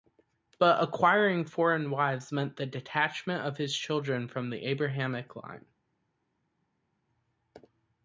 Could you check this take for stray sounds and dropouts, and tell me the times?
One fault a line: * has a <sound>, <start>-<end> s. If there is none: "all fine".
all fine